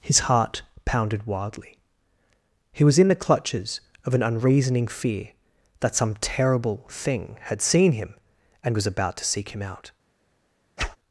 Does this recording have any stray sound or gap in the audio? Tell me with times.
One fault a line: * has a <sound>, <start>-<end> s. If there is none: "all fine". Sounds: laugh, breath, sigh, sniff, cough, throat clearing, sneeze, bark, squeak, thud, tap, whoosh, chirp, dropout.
* has a whoosh, 10.8-11.0 s